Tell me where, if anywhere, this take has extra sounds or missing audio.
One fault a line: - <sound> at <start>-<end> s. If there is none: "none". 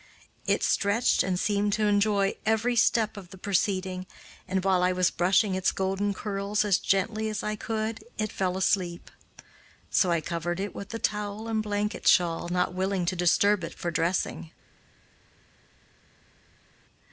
none